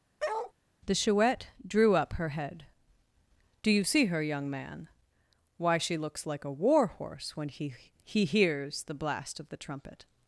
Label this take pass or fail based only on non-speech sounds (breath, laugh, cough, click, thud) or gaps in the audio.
fail